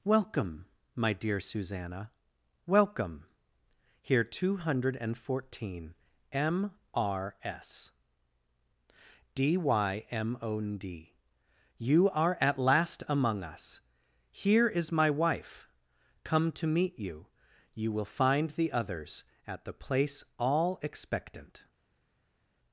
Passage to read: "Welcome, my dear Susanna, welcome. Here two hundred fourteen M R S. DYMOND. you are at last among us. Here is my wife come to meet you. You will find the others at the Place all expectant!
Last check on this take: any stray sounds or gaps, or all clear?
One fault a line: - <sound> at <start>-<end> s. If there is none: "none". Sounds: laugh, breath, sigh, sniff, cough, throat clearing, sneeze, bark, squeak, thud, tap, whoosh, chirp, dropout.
none